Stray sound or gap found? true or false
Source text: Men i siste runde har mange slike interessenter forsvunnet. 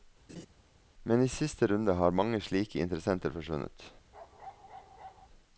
true